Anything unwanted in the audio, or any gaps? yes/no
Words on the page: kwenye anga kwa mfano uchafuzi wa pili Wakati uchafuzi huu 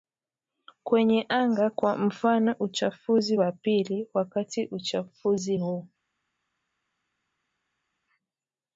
no